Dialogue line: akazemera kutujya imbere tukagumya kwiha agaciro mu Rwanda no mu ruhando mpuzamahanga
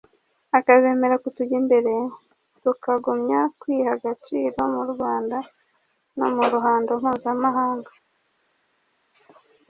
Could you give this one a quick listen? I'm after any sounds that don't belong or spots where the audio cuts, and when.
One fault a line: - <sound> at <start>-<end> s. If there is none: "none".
none